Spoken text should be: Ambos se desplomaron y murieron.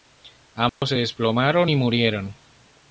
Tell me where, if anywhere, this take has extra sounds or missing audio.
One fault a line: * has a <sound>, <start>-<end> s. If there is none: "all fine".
* has a dropout, 0.7-0.8 s